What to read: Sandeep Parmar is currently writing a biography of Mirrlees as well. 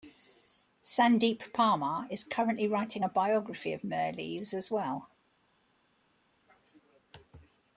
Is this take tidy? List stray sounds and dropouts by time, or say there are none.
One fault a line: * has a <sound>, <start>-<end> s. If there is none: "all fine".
all fine